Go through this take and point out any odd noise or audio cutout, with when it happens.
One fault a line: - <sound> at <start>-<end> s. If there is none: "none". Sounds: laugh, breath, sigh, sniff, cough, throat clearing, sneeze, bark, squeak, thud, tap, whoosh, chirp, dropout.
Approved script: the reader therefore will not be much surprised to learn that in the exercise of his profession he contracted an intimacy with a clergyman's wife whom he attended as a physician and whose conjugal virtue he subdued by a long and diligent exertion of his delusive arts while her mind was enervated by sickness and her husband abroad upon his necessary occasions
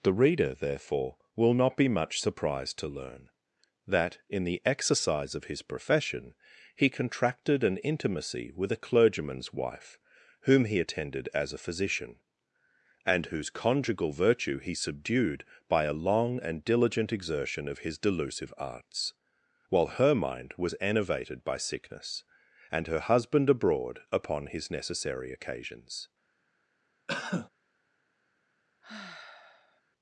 - cough at 27.1-27.5 s
- sigh at 28.8-29.8 s